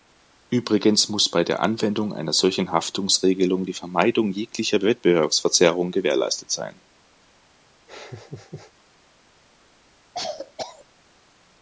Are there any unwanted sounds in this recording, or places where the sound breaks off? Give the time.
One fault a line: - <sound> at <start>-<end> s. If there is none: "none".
- laugh at 7.9-8.7 s
- cough at 10.1-10.9 s